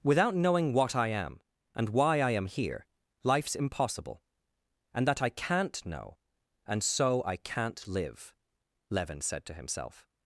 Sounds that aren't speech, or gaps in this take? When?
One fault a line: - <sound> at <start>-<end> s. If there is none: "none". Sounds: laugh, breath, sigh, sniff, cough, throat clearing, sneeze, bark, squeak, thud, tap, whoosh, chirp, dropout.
none